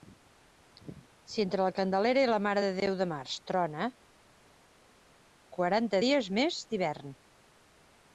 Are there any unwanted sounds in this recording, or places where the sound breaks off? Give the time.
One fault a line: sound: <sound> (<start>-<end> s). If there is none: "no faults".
no faults